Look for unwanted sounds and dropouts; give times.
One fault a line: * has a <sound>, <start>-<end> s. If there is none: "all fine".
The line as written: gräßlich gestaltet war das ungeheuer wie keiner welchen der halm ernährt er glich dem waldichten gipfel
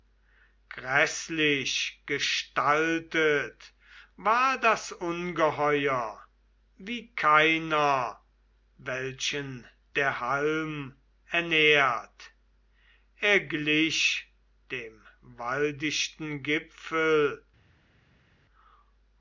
all fine